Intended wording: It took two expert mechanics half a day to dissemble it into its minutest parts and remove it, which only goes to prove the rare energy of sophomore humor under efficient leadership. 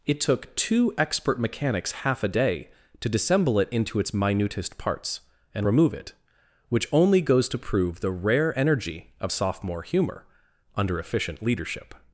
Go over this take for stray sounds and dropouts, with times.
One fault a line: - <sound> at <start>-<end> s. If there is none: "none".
none